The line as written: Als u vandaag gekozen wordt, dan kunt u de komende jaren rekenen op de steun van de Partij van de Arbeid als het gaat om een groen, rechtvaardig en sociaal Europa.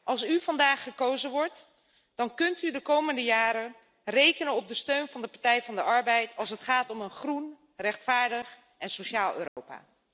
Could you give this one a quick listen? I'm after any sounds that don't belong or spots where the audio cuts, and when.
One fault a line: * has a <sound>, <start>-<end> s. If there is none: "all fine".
* has a dropout, 9.5-9.6 s